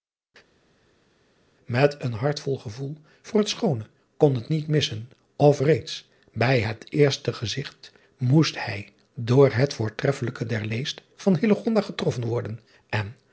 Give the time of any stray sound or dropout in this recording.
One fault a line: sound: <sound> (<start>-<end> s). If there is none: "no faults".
no faults